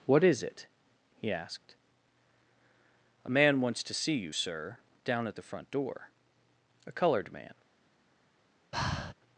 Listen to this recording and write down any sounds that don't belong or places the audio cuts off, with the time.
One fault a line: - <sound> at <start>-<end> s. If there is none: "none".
- breath at 8.7-9.1 s